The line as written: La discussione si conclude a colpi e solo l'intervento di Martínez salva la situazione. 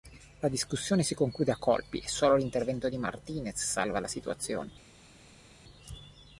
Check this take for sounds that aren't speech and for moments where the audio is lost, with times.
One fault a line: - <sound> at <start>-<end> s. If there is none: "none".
none